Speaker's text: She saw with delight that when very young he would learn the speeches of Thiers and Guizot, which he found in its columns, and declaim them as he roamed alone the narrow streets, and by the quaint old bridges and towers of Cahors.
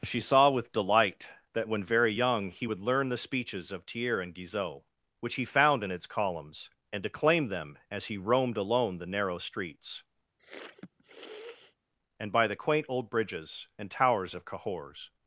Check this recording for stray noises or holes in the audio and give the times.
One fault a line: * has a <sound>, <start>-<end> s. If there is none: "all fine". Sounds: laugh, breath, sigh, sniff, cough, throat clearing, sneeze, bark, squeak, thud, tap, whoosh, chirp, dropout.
* has a sniff, 10.4-11.8 s